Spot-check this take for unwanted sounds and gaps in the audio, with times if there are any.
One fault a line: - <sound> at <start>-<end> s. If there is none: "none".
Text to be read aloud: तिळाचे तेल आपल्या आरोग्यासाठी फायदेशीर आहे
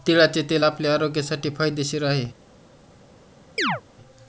- chirp at 3.6-3.8 s